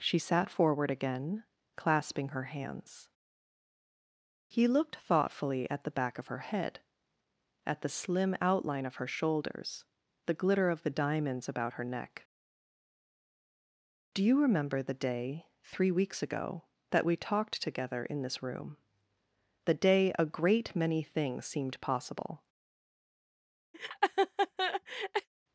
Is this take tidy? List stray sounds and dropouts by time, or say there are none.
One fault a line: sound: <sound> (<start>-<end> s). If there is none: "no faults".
sound: laugh (23.7-25.3 s)